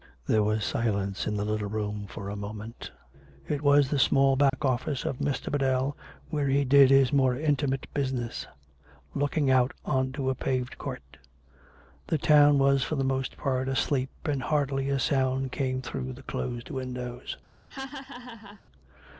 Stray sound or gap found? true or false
true